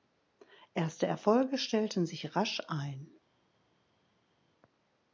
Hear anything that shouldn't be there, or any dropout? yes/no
no